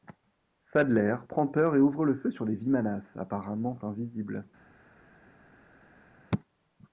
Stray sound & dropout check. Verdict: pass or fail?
pass